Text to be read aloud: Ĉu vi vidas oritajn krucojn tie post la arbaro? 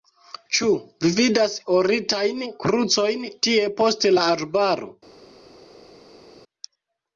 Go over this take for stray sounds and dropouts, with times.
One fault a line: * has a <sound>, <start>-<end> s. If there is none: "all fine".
all fine